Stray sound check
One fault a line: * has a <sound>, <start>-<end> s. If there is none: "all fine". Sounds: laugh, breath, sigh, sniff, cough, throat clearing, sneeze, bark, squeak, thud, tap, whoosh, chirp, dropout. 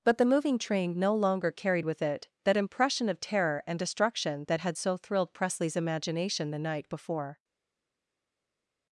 all fine